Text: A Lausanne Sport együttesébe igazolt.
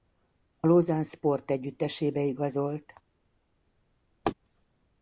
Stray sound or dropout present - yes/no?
yes